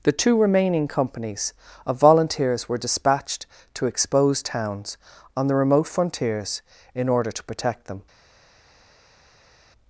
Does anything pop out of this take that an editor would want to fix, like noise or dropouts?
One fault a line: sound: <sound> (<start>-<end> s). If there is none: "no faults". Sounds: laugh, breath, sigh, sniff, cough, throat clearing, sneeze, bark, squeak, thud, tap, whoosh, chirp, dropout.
no faults